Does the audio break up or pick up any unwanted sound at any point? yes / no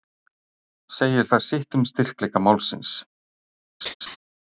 yes